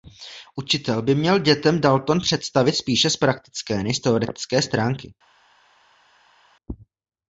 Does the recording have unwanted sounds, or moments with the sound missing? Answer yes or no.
no